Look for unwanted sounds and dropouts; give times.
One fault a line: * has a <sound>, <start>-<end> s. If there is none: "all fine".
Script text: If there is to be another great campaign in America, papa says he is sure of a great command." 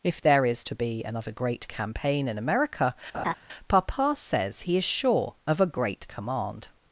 * has a laugh, 3.1-3.3 s